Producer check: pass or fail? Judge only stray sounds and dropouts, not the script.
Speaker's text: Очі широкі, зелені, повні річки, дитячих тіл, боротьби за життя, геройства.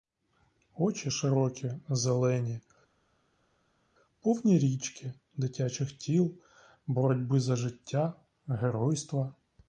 pass